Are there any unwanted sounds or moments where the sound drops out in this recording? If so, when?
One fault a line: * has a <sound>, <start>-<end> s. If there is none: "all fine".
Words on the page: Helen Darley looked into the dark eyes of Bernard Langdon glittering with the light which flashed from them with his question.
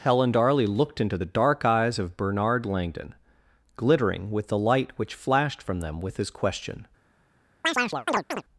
* has a chirp, 7.6-8.4 s